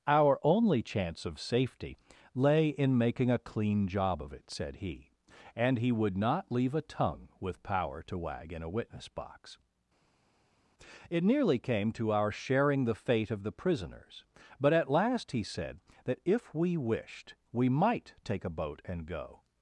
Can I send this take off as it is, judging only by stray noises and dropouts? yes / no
yes